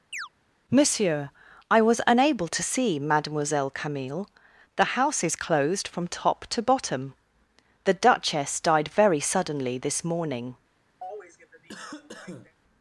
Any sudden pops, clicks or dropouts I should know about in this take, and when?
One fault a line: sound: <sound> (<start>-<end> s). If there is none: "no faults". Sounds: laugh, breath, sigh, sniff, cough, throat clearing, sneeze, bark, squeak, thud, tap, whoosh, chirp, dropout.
sound: chirp (0.1-0.3 s)
sound: cough (11.0-12.6 s)